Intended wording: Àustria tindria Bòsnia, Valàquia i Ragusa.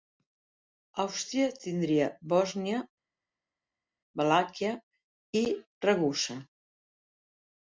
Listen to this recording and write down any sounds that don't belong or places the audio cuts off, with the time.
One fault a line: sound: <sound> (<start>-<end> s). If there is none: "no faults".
no faults